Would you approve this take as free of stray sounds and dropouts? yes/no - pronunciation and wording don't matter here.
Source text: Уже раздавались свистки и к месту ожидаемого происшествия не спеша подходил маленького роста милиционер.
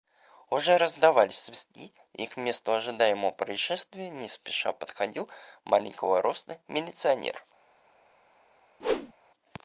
no